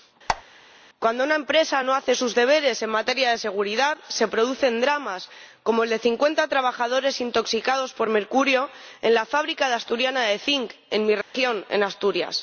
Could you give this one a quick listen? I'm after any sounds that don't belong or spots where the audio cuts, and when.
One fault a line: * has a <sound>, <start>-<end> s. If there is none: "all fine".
* has a squeak, 0.3-0.4 s
* has a dropout, 11.2-11.3 s